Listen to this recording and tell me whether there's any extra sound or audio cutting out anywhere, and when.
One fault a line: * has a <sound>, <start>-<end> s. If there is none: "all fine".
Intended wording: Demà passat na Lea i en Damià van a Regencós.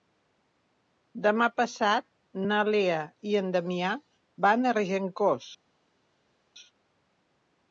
all fine